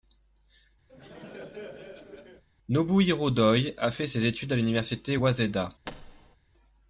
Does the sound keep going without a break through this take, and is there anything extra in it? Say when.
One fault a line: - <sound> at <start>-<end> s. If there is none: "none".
- laugh at 0.9-2.4 s
- thud at 5.8-6.4 s